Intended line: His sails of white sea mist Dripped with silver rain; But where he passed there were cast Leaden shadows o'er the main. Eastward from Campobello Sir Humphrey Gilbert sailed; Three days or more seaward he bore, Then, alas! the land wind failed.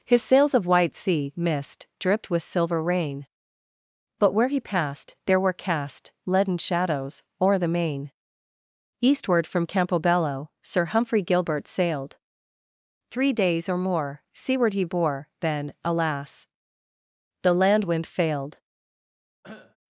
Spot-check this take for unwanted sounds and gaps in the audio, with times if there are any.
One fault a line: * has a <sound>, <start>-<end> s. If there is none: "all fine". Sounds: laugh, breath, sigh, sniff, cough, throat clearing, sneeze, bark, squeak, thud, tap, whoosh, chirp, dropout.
* has a cough, 19.4-19.8 s